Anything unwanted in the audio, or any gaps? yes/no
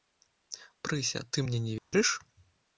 yes